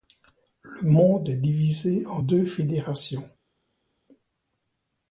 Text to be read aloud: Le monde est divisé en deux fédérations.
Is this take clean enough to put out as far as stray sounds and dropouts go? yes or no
yes